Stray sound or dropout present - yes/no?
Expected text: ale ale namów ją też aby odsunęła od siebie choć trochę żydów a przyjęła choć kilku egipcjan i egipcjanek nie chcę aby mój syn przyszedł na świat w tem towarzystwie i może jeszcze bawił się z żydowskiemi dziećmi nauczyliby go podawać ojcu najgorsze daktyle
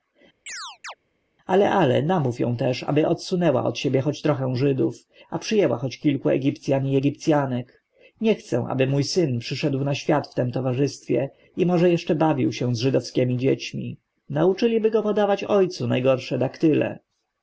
yes